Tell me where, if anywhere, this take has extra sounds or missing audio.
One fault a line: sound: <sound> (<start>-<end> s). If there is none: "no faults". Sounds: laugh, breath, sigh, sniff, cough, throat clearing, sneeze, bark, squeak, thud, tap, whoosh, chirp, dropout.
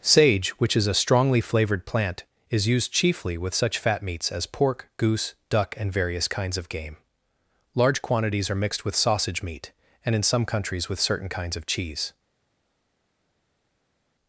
no faults